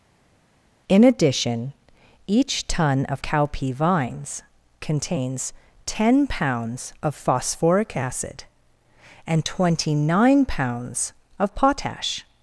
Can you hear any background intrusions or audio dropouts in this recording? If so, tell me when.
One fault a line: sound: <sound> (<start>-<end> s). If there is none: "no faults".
no faults